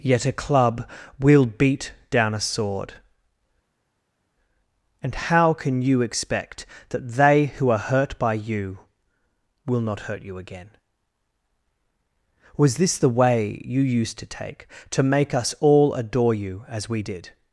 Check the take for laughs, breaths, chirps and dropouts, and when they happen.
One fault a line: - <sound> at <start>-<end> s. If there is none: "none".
none